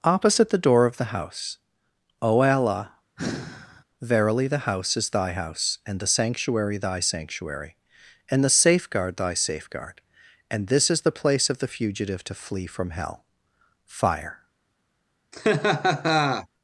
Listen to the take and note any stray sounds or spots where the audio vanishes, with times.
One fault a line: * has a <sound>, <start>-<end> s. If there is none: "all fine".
* has a sigh, 3.2-3.8 s
* has a laugh, 15.3-16.5 s